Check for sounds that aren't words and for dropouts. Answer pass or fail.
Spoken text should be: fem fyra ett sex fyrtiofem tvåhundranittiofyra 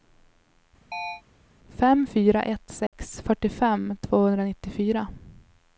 fail